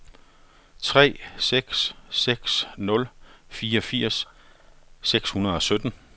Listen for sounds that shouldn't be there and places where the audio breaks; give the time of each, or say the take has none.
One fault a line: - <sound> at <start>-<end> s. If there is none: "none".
none